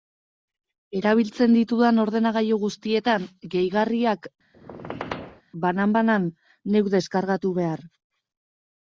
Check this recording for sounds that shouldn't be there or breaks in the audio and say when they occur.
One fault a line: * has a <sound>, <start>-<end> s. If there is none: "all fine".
* has a squeak, 4.5-5.4 s